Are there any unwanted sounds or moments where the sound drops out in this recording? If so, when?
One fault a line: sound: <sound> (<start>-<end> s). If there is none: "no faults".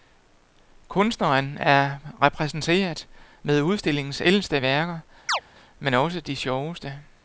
sound: chirp (5.3-5.4 s)